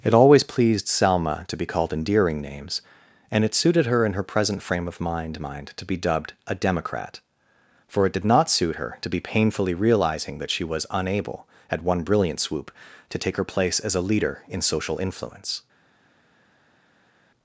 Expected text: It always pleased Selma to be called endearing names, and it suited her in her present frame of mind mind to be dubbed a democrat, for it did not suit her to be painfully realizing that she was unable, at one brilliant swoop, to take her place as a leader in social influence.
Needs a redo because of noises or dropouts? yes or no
no